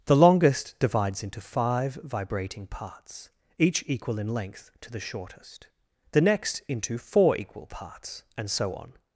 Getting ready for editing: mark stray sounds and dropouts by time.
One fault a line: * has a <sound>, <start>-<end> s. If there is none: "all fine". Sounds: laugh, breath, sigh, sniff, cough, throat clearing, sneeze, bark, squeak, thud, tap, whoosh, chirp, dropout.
all fine